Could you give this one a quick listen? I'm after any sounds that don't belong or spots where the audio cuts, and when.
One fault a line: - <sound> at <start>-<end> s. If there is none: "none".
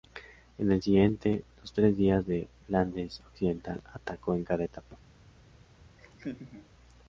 - laugh at 6.0-6.7 s